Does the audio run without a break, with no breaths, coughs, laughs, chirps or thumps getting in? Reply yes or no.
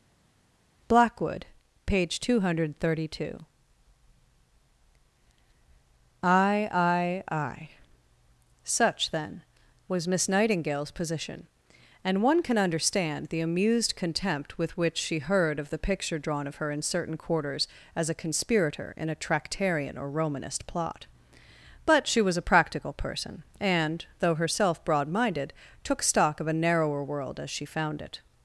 yes